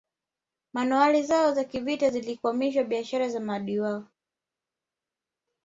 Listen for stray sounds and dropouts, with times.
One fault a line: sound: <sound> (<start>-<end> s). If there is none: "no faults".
no faults